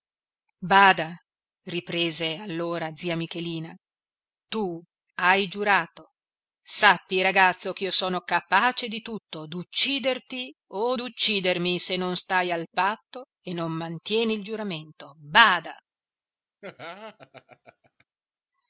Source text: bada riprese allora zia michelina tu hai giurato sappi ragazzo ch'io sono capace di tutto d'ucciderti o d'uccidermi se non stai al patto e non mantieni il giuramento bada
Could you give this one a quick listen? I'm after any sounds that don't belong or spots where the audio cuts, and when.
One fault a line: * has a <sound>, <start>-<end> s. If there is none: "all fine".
* has a laugh, 16.6-18.0 s